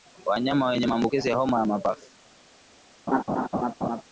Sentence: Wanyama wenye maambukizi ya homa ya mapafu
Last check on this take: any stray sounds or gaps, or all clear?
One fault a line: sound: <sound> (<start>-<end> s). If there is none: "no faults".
sound: laugh (3.1-4.0 s)